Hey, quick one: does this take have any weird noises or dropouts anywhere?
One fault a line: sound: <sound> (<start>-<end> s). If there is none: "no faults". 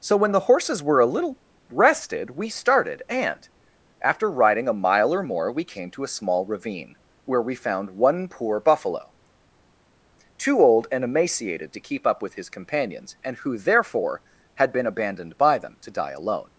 no faults